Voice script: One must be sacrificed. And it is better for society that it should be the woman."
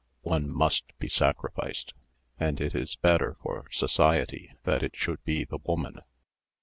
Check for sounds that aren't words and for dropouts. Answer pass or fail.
pass